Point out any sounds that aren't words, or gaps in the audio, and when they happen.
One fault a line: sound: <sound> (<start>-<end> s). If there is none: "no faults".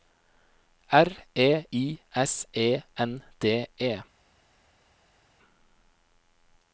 no faults